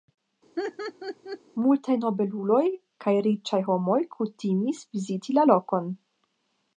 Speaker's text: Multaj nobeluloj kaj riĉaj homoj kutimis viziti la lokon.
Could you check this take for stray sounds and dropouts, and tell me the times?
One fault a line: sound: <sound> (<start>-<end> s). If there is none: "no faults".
sound: laugh (0.6-1.4 s)